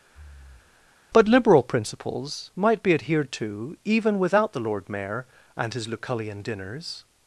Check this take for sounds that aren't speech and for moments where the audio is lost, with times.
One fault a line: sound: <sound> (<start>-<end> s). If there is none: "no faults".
sound: breath (0.1-1.0 s)